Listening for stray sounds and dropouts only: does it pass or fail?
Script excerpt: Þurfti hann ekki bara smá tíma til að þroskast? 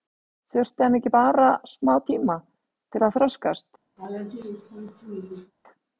fail